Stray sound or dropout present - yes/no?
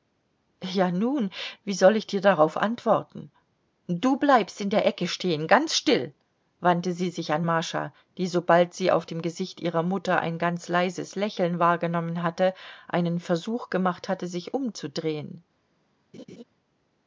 yes